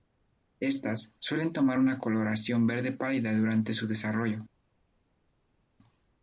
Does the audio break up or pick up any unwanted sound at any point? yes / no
no